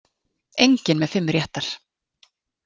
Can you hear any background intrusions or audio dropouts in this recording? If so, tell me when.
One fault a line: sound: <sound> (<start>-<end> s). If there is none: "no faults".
no faults